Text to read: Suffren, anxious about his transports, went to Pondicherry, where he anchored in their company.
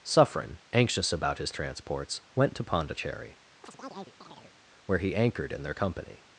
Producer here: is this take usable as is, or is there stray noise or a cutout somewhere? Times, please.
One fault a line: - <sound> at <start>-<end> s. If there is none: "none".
- chirp at 3.6-4.5 s